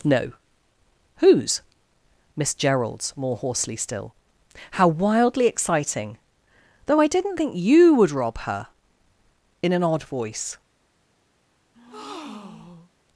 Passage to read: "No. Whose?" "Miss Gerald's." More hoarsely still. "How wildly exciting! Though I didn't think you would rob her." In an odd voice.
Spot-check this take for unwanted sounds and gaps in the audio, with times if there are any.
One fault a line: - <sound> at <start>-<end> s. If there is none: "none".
- breath at 11.7-12.9 s